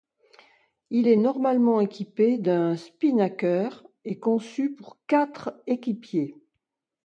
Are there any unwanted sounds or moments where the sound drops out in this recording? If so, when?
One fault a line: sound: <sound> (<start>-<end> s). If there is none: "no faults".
no faults